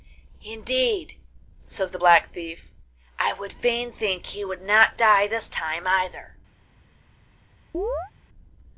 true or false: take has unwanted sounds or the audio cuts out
true